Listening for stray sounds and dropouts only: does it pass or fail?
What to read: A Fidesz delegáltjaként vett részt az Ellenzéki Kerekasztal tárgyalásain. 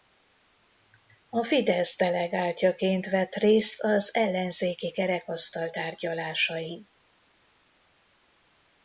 pass